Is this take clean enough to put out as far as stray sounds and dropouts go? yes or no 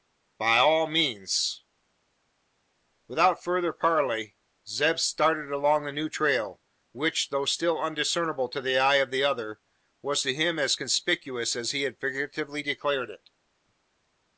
yes